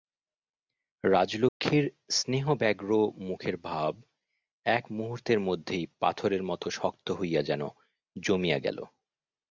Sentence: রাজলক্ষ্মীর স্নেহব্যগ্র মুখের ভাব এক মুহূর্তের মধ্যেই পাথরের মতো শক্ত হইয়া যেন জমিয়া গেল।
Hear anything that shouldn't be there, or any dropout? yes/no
yes